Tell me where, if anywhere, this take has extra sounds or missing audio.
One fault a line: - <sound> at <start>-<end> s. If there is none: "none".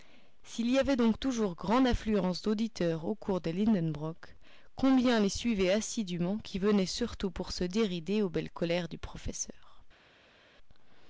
none